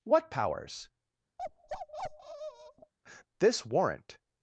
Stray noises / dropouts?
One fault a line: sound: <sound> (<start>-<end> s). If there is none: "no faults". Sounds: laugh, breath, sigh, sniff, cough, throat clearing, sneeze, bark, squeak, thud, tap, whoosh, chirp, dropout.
sound: bark (1.4-2.9 s)